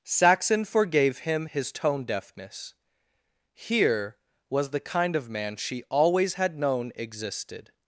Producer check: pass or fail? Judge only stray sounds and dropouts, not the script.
pass